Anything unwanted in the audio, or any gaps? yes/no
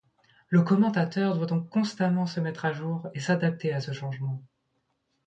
no